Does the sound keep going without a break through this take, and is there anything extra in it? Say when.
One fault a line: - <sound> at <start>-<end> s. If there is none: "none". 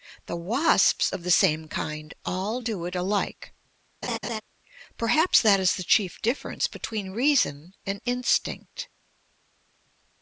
- laugh at 4.0-4.4 s